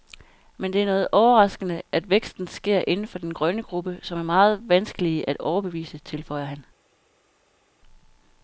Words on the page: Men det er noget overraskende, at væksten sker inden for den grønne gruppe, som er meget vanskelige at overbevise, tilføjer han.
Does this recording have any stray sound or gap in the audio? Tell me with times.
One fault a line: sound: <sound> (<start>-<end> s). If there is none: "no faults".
no faults